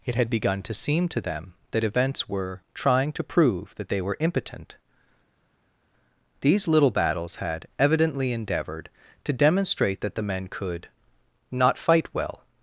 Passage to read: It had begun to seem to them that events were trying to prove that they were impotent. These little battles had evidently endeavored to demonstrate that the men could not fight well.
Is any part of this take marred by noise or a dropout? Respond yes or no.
no